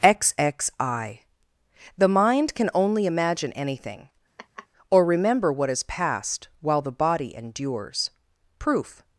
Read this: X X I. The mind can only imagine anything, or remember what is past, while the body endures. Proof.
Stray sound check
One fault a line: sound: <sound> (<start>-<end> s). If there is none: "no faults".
sound: laugh (4.4-4.7 s)